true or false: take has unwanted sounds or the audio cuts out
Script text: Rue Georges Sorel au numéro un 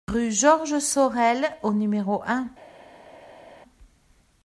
false